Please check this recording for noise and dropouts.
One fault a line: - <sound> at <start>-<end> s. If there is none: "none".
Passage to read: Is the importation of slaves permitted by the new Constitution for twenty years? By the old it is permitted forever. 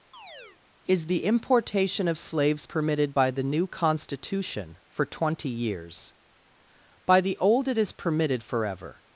- chirp at 0.1-0.6 s